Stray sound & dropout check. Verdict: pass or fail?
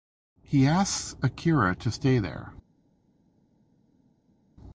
pass